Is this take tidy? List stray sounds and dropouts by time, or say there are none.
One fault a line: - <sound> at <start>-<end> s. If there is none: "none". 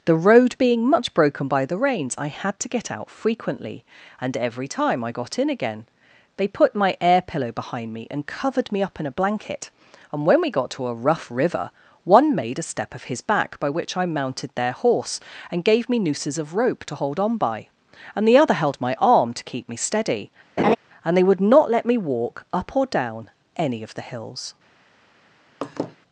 - laugh at 20.6-20.8 s
- laugh at 25.6-26.0 s